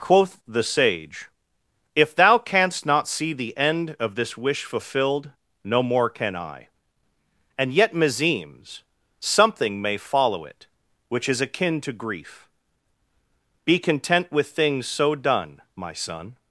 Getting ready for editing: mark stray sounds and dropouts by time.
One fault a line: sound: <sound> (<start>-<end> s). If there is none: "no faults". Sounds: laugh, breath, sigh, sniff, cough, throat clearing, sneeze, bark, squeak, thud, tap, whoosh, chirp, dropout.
no faults